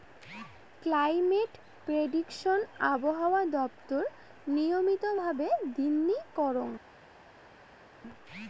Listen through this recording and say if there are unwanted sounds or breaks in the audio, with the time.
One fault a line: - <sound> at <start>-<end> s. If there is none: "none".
none